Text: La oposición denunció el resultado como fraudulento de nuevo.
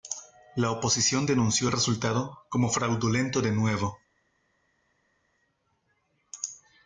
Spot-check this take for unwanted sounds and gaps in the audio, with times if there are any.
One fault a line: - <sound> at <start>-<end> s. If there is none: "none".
none